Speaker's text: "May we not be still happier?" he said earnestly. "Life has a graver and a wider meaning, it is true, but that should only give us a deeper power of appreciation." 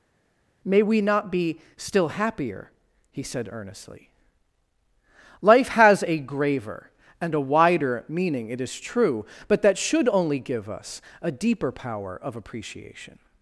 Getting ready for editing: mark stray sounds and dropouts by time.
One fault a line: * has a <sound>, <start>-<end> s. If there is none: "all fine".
all fine